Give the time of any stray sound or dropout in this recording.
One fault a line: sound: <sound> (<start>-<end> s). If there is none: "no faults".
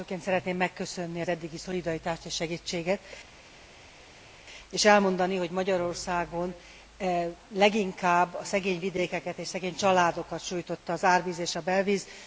no faults